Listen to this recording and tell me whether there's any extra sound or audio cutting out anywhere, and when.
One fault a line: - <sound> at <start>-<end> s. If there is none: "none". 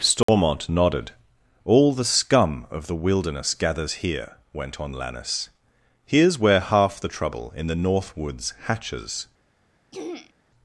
- dropout at 0.2-0.3 s
- throat clearing at 9.9-10.3 s